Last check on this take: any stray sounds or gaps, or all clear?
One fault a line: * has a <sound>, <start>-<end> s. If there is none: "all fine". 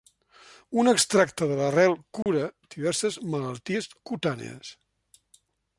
* has a dropout, 2.2-2.3 s